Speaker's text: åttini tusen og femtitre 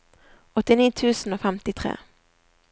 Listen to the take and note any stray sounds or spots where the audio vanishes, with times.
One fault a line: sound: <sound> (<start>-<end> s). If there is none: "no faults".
no faults